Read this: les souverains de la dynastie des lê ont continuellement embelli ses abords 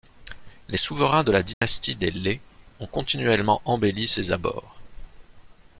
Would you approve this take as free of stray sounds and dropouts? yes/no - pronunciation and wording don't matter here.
no